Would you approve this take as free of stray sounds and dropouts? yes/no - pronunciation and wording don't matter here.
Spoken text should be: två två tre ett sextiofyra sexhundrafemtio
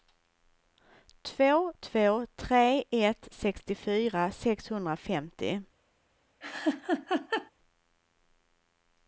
no